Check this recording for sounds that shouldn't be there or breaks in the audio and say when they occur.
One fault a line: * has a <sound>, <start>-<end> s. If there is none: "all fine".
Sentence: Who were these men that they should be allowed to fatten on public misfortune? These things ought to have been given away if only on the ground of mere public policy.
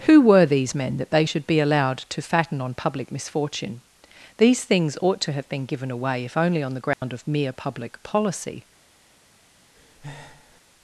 * has a dropout, 6.9-7.0 s
* has a breath, 9.8-10.6 s